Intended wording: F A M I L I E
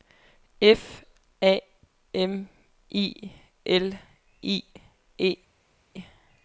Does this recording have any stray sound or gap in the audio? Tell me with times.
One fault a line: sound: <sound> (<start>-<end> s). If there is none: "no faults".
no faults